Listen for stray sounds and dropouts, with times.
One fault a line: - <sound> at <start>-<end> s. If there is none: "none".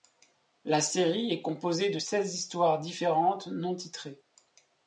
none